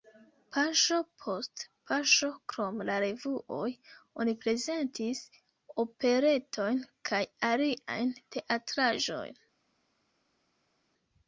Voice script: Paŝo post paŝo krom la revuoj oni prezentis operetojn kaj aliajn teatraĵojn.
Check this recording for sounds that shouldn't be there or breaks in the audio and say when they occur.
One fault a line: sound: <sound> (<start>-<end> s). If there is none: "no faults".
no faults